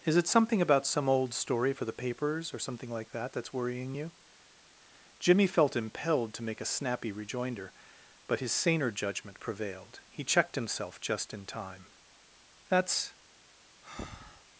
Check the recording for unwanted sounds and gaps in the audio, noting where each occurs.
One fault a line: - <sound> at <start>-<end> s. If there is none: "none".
- breath at 13.8-14.4 s